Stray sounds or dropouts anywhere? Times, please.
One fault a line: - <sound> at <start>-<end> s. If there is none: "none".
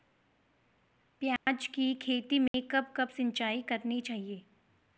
- dropout at 1.4-1.5 s
- dropout at 2.5-2.5 s